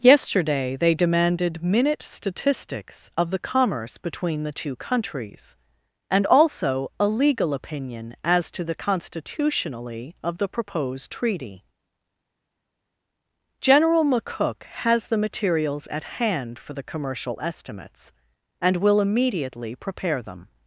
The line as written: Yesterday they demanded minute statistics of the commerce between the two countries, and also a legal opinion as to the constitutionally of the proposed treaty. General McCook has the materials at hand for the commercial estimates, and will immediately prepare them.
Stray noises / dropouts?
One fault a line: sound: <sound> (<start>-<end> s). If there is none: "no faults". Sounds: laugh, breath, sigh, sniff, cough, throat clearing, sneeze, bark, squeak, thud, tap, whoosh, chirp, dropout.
no faults